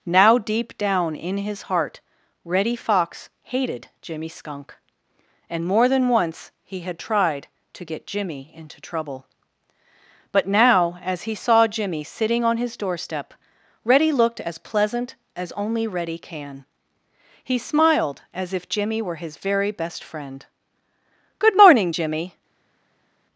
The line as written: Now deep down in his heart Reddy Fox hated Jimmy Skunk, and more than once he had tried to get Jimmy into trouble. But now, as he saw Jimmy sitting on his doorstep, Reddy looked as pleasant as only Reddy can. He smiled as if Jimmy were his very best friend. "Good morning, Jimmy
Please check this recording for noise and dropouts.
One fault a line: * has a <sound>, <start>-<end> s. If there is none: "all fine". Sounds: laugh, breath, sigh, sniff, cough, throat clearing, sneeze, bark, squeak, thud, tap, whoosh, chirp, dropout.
all fine